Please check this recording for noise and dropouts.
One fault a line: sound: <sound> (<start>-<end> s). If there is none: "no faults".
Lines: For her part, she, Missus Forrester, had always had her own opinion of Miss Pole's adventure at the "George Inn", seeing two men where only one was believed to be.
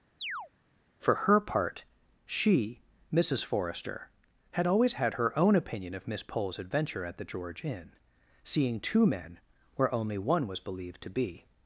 sound: chirp (0.2-0.5 s)